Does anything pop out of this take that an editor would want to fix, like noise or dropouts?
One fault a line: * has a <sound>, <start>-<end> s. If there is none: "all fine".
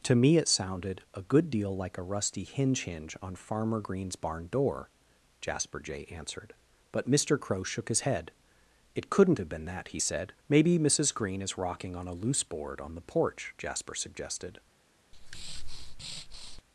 * has a breath, 15.1-16.6 s